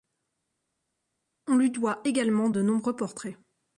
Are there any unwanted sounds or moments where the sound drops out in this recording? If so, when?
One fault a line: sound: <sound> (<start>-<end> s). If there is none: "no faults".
no faults